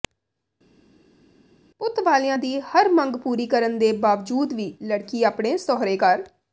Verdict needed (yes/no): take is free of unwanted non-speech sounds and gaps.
yes